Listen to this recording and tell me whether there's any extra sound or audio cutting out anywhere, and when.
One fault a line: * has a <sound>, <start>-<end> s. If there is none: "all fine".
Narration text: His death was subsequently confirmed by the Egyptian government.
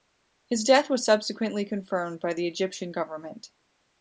all fine